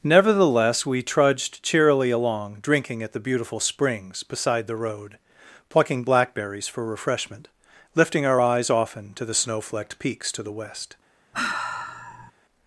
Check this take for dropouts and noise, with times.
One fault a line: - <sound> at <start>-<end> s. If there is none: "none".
- sigh at 11.3-12.3 s